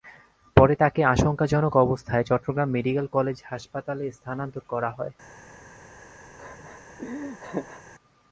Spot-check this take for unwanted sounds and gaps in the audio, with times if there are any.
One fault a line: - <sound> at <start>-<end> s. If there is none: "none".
- laugh at 6.4-7.8 s